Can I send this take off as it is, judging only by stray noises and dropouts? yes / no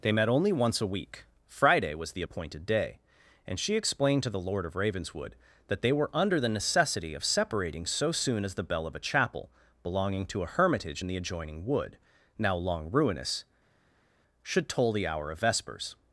yes